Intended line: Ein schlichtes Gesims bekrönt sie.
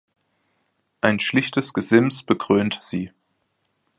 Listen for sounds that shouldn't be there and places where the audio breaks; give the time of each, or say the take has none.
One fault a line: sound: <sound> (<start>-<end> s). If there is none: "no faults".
no faults